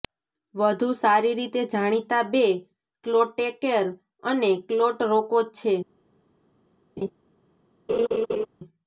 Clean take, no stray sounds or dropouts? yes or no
no